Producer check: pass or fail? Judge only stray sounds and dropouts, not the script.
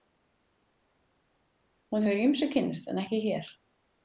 pass